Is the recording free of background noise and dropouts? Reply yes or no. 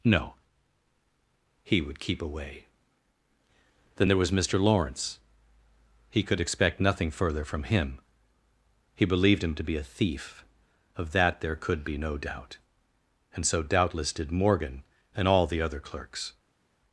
yes